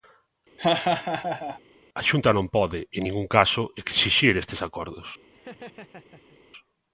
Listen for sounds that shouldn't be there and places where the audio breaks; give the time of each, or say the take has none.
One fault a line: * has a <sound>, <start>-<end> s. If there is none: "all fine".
* has a laugh, 0.6-1.6 s
* has a laugh, 5.3-6.4 s